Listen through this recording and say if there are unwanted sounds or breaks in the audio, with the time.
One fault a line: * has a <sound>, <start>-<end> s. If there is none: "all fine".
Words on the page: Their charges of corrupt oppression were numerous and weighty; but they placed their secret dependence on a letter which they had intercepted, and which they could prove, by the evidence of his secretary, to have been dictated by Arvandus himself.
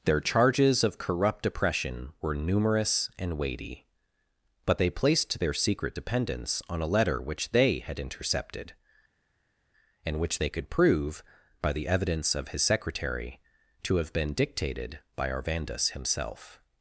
all fine